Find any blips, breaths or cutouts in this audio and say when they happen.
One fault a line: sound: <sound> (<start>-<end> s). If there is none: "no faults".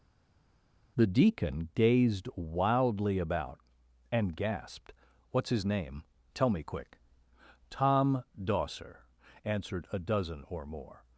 no faults